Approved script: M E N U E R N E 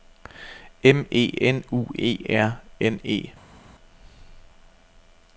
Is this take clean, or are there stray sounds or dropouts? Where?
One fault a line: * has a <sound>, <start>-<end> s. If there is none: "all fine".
all fine